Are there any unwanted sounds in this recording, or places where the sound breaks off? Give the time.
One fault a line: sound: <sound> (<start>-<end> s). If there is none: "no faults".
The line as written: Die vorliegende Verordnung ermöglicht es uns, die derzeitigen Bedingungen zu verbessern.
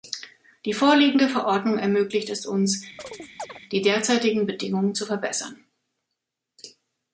sound: chirp (3.0-3.6 s)